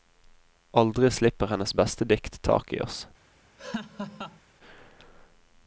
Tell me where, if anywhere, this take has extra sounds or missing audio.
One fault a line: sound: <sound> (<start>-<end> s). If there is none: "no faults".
sound: laugh (3.6-4.4 s)